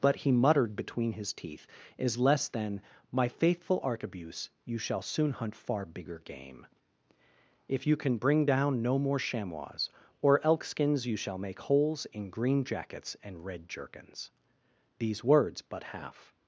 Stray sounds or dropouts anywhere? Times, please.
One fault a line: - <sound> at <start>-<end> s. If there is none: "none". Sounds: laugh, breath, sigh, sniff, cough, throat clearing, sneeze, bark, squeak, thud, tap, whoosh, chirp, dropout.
none